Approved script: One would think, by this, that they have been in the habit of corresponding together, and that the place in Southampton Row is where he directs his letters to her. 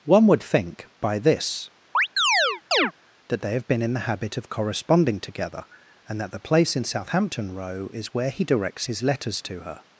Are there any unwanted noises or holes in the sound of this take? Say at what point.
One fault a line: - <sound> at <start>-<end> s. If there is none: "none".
- chirp at 1.9-2.9 s